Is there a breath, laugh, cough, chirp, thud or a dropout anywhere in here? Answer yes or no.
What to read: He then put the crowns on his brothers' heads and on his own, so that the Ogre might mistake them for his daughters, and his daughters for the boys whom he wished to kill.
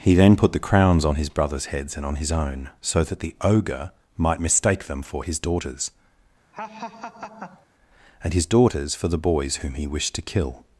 yes